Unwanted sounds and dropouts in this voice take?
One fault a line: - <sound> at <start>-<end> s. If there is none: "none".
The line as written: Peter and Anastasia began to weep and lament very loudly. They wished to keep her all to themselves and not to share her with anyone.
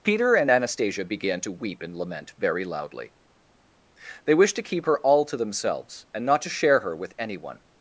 none